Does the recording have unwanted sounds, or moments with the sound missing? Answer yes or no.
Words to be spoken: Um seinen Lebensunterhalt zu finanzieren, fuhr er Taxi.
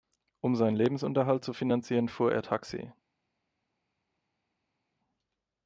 no